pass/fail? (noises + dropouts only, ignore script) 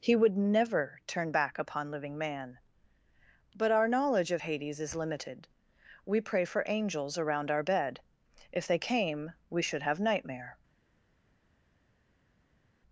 pass